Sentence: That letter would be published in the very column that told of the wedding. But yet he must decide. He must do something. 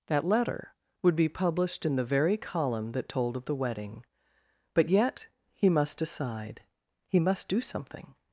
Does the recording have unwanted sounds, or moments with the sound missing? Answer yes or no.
no